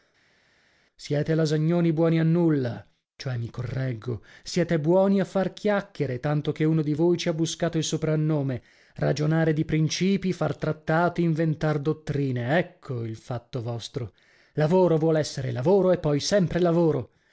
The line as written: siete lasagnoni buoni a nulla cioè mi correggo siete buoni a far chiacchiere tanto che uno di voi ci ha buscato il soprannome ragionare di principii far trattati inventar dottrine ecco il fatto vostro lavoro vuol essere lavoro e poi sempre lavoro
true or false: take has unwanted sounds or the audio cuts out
false